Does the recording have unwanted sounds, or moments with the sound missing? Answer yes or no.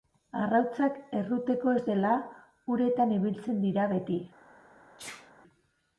yes